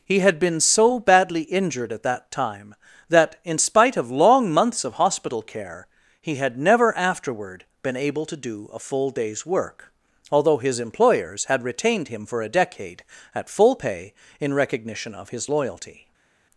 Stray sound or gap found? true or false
false